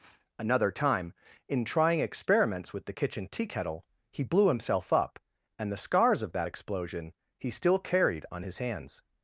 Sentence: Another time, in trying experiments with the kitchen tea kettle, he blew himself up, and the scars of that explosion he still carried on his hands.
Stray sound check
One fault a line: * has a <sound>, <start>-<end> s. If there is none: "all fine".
all fine